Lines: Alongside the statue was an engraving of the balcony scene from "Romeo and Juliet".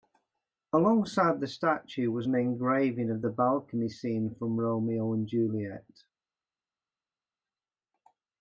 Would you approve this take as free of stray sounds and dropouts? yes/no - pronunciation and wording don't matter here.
yes